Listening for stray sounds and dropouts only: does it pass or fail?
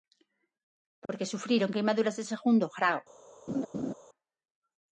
fail